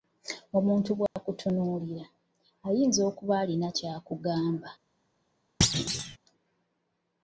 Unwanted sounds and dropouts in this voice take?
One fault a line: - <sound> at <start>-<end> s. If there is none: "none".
- dropout at 1.1-1.2 s
- thud at 5.6-6.2 s